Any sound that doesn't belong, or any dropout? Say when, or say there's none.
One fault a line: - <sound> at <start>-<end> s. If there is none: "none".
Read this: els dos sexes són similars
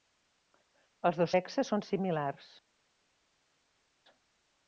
none